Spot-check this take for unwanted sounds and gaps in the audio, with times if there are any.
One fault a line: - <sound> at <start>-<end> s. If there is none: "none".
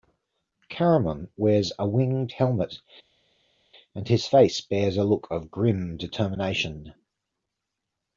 none